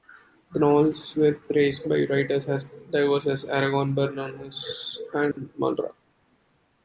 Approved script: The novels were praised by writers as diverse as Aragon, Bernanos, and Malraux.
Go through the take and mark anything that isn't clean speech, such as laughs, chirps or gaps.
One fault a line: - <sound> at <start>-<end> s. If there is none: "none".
- dropout at 5.3-5.4 s